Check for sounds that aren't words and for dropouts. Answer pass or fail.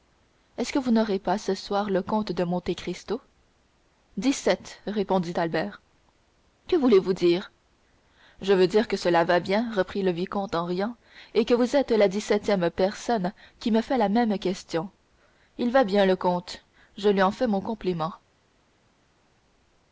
pass